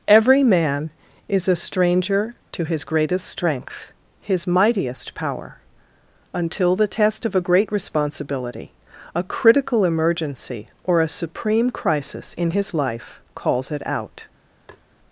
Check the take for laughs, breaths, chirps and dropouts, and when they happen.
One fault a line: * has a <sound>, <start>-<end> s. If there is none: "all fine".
* has a tap, 14.7-14.8 s